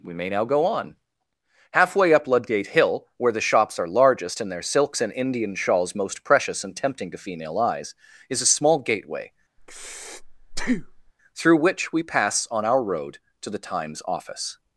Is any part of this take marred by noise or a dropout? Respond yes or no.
yes